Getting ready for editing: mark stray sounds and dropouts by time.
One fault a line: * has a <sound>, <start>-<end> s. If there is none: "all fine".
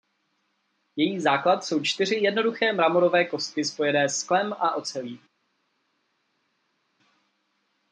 all fine